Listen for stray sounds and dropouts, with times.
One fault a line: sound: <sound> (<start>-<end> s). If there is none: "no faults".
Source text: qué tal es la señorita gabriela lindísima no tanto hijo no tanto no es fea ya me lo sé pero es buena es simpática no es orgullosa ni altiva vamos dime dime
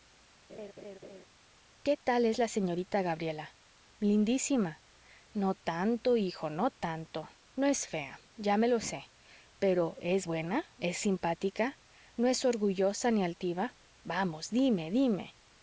sound: laugh (0.5-1.2 s)